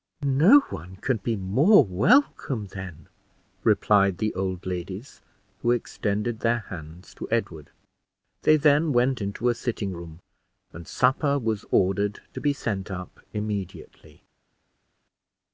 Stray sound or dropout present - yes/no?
no